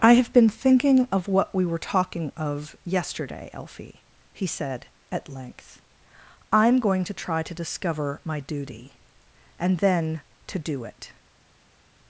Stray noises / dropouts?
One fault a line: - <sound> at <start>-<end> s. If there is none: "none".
none